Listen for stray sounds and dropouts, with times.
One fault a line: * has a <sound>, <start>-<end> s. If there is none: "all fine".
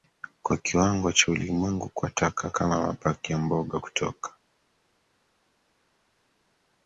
all fine